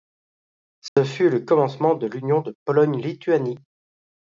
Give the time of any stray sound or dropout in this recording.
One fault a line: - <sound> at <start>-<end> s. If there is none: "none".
- dropout at 0.9-1.0 s